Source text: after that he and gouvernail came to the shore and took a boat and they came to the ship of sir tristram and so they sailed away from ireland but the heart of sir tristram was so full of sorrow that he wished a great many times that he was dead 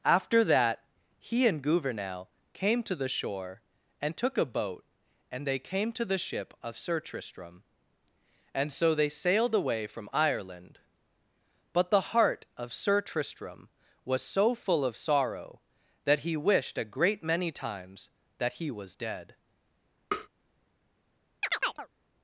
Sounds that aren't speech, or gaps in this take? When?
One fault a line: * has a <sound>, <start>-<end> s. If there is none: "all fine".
* has a tap, 20.1-20.3 s
* has a chirp, 21.4-21.9 s